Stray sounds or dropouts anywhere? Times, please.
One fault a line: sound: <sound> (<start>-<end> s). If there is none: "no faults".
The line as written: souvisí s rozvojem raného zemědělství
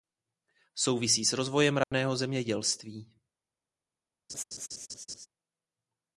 sound: dropout (1.8-1.9 s)
sound: laugh (4.3-5.3 s)